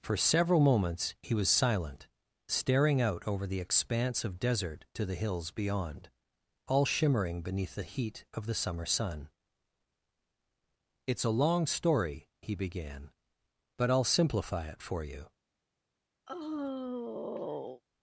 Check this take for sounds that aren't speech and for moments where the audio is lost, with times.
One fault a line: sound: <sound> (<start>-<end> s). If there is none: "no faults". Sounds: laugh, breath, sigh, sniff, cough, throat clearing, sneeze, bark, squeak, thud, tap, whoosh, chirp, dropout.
sound: sigh (16.3-17.8 s)